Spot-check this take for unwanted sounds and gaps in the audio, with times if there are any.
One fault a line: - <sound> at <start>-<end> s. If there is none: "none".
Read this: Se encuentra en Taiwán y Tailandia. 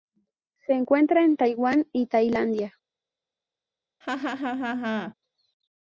- laugh at 4.0-5.1 s